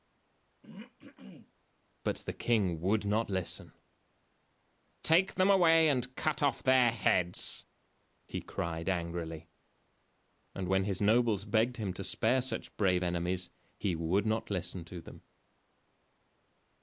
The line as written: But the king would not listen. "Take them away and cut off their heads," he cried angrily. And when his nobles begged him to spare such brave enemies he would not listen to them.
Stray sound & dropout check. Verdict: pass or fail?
fail